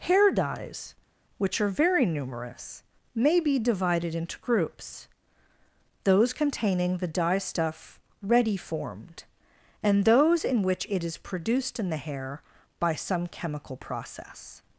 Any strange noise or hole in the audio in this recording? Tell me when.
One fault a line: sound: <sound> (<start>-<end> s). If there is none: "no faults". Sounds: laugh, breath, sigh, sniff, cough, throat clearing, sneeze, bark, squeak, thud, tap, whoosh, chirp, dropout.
no faults